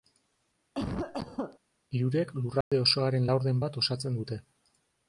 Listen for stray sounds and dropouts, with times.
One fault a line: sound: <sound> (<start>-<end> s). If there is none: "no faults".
sound: cough (0.7-1.6 s)
sound: dropout (2.6-2.7 s)